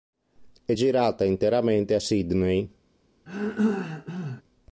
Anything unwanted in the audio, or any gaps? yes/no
yes